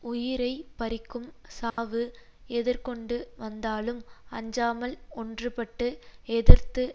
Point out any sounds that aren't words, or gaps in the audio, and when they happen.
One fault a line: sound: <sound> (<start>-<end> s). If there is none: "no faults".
sound: dropout (1.7-1.8 s)